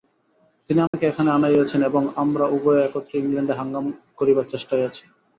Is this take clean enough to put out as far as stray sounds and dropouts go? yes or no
no